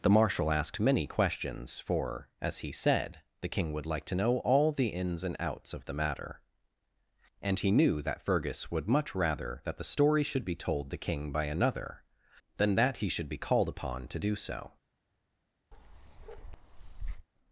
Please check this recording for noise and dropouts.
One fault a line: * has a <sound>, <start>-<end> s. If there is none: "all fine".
* has a bark, 15.7-17.3 s